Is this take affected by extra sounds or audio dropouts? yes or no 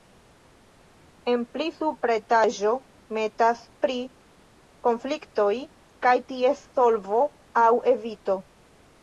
no